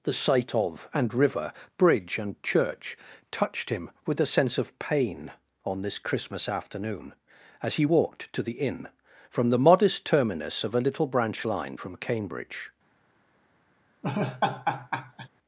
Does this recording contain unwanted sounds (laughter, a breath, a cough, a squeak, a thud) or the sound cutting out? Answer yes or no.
yes